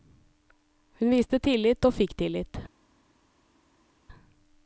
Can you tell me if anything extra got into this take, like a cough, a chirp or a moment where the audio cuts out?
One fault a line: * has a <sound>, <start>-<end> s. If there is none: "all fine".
all fine